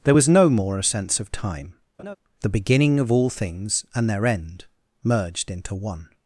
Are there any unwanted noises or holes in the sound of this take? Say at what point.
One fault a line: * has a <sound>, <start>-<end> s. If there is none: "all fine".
* has a laugh, 2.0-2.2 s